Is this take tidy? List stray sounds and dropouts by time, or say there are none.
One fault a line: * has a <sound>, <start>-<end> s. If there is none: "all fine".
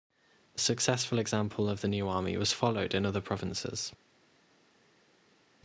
all fine